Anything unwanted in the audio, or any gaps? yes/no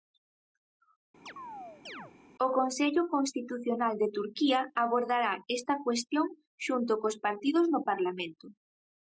yes